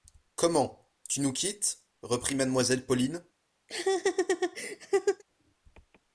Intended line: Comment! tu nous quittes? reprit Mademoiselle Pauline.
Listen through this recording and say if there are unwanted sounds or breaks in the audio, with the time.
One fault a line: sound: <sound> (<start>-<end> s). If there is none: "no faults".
sound: laugh (3.7-5.2 s)